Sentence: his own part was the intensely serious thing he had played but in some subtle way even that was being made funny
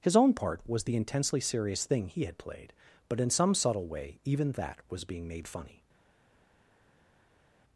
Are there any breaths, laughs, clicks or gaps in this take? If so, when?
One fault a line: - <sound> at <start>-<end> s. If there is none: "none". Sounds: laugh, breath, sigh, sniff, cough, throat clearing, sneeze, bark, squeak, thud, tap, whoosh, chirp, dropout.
none